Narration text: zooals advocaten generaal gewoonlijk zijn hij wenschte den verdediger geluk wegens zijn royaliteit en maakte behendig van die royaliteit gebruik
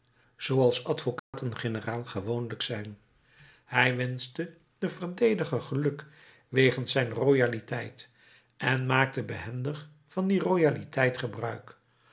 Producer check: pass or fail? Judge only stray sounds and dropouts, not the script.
fail